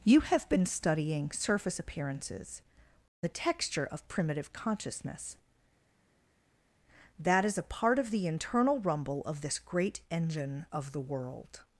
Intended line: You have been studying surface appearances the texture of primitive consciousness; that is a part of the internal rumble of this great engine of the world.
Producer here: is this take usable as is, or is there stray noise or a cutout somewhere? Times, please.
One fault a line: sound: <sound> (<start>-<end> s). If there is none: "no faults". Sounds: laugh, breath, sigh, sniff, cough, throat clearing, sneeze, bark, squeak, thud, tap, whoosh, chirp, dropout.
no faults